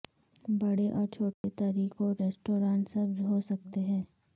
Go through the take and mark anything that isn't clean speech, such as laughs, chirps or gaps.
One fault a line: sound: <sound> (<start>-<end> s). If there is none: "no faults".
sound: dropout (1.3-1.4 s)